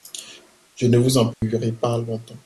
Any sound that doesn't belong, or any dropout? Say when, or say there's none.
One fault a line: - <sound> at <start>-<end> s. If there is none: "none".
- dropout at 1.3-1.4 s